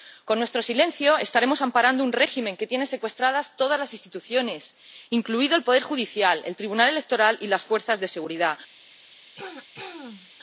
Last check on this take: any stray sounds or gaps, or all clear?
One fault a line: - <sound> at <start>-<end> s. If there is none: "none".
- throat clearing at 9.4-10.3 s